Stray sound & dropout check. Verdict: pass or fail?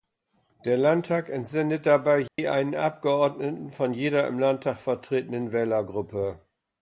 fail